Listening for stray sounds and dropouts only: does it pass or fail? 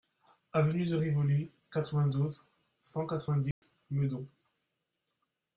fail